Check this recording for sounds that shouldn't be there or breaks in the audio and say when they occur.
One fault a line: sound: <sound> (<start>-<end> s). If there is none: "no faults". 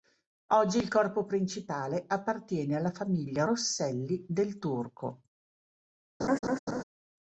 sound: laugh (6.2-6.8 s)